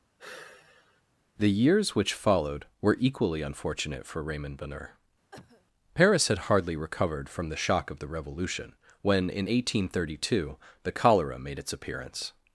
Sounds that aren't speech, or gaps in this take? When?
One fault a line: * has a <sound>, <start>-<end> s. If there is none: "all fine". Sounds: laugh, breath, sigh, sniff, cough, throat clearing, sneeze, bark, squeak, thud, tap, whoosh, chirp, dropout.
* has a sigh, 0.2-1.0 s
* has a cough, 5.3-5.7 s